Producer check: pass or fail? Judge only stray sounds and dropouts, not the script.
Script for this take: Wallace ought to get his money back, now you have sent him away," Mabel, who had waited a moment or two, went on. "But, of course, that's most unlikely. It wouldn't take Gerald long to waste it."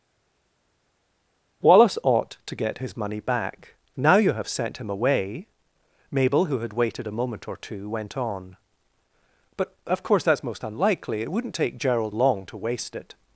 pass